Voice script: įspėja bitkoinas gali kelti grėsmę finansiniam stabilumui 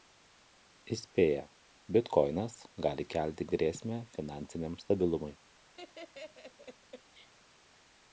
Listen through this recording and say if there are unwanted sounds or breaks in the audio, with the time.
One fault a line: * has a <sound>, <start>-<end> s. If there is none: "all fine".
* has a laugh, 5.8-7.3 s